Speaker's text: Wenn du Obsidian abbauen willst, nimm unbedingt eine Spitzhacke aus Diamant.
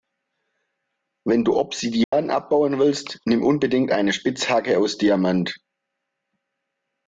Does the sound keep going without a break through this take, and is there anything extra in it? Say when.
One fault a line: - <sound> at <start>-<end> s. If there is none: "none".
- dropout at 2.0-2.1 s